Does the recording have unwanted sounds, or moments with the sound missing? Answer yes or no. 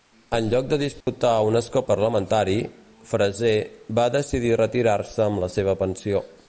yes